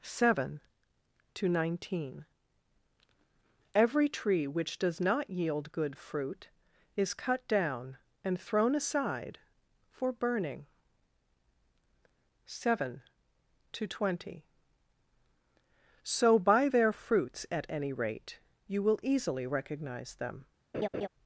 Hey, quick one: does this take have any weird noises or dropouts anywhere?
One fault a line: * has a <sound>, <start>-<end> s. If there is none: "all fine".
* has a laugh, 20.7-21.1 s